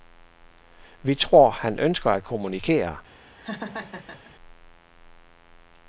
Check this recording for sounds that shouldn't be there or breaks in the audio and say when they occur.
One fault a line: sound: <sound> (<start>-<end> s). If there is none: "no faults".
sound: laugh (3.4-4.3 s)